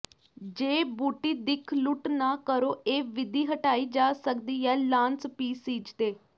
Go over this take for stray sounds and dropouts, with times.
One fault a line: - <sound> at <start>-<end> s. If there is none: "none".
none